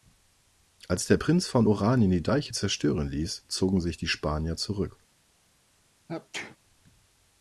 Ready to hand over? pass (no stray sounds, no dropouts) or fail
fail